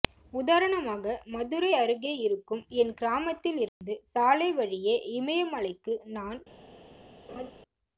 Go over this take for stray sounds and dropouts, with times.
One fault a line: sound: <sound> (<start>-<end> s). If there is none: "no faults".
sound: dropout (3.7-3.8 s)
sound: laugh (7.3-7.5 s)